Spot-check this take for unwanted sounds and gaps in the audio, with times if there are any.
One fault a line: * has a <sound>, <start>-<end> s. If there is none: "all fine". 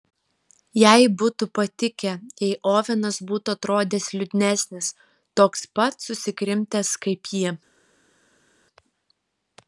all fine